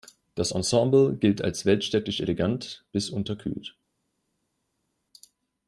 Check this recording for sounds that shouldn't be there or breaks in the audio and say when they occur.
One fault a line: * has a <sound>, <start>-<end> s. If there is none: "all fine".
all fine